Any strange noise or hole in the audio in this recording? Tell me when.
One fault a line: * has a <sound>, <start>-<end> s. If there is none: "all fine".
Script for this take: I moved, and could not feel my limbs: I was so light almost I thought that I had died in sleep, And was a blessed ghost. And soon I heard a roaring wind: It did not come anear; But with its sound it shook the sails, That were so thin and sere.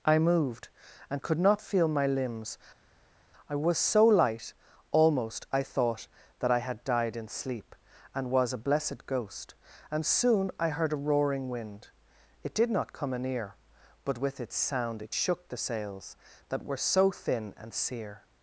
all fine